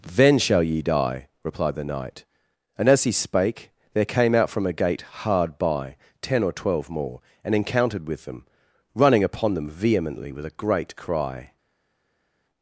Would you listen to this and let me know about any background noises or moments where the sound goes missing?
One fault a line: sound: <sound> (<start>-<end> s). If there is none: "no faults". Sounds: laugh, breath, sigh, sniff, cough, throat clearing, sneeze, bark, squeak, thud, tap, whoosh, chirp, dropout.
no faults